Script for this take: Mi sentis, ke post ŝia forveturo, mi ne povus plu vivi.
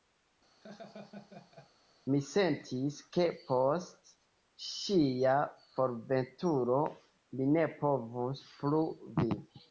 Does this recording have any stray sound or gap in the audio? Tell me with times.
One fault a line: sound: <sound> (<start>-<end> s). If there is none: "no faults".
sound: laugh (0.6-1.7 s)